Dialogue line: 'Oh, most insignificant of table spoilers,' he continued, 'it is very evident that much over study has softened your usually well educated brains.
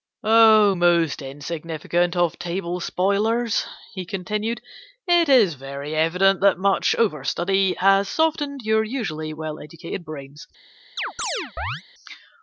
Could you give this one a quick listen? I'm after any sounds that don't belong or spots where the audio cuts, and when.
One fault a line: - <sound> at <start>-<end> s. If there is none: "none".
- chirp at 11.0-11.8 s